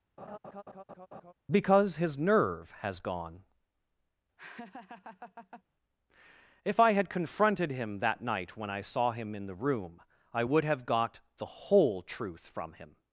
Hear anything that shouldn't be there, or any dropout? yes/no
yes